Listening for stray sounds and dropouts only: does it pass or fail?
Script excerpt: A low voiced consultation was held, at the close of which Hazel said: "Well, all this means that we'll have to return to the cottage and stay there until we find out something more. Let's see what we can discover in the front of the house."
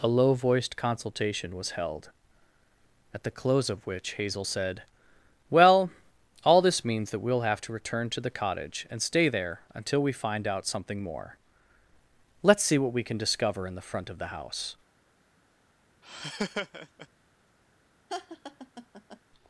fail